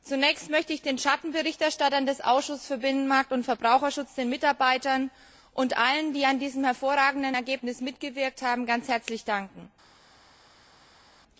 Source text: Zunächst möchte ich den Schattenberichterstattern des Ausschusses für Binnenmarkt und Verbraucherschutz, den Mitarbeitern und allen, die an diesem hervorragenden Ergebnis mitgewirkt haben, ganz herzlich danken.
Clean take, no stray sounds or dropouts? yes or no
yes